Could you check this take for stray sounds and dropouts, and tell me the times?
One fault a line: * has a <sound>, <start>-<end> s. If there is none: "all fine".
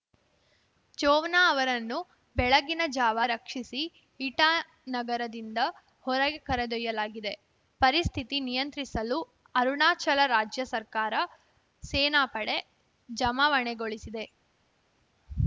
all fine